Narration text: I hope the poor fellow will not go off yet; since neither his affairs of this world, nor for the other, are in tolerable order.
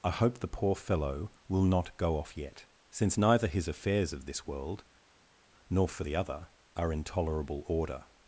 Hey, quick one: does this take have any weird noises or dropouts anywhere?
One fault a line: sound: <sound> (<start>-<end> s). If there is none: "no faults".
no faults